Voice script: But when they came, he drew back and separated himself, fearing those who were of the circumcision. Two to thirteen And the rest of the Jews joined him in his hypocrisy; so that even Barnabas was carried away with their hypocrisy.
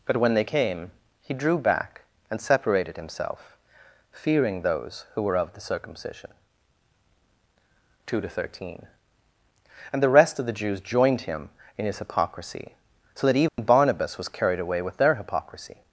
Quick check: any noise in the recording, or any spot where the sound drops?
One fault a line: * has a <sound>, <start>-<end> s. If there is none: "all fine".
* has a dropout, 13.5-13.6 s